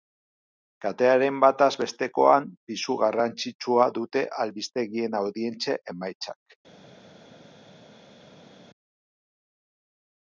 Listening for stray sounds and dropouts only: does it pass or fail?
pass